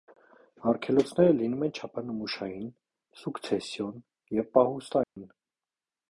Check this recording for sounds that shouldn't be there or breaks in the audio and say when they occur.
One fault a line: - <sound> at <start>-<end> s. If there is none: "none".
- dropout at 5.0-5.2 s